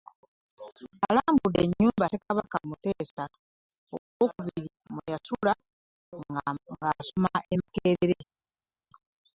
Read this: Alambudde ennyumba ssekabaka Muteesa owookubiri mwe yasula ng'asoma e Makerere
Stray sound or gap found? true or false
false